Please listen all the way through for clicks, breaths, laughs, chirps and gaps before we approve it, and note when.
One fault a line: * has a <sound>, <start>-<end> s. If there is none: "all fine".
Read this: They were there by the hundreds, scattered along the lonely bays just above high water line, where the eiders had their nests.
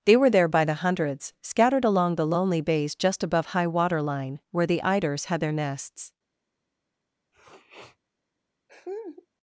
* has a sniff, 7.3-8.0 s
* has a laugh, 8.7-9.3 s